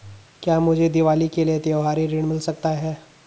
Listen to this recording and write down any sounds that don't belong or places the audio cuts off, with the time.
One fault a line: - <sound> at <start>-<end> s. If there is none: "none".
none